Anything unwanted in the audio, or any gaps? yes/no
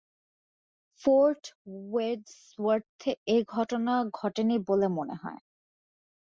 no